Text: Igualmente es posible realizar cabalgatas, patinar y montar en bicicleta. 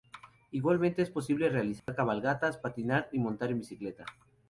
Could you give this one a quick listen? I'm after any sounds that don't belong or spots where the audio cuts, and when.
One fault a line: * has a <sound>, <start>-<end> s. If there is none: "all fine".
* has a dropout, 1.8-1.9 s